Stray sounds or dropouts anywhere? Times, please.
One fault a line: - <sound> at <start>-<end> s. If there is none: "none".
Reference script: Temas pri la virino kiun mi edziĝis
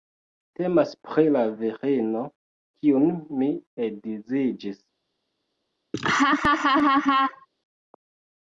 - laugh at 5.9-7.5 s